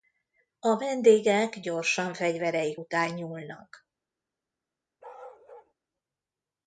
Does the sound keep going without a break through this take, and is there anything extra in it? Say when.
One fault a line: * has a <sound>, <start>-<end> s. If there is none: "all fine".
* has a bark, 5.0-5.7 s